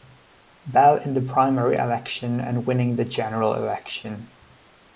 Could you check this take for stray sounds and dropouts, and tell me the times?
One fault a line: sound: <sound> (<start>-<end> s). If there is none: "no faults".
no faults